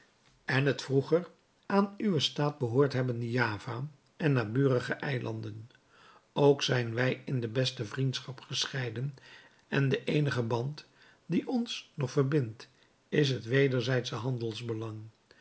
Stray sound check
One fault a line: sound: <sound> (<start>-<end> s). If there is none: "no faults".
no faults